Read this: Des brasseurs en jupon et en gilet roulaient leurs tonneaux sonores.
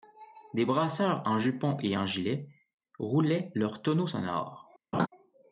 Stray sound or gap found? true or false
true